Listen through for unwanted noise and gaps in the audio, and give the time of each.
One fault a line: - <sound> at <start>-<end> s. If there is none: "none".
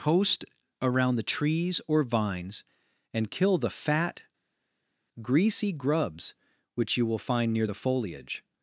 none